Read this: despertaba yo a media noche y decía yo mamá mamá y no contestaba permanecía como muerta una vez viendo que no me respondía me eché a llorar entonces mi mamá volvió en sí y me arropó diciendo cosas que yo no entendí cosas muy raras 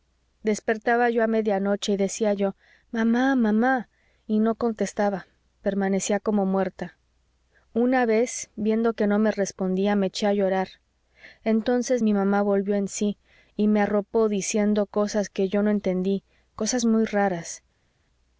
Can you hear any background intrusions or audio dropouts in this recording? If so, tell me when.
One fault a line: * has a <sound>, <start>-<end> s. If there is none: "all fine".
all fine